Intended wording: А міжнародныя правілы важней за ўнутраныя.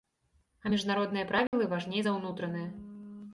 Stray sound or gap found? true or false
true